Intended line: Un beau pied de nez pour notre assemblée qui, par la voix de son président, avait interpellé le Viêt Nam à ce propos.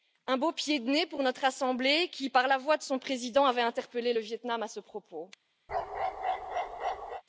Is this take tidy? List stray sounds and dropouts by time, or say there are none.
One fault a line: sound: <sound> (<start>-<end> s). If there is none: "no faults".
sound: bark (5.7-7.2 s)